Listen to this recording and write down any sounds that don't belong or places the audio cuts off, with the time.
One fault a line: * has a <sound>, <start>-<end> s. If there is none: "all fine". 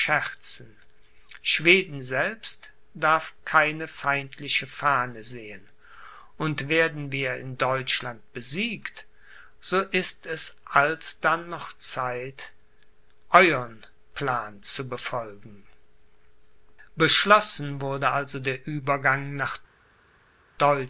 all fine